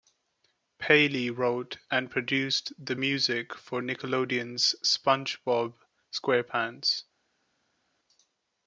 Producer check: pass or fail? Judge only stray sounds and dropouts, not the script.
pass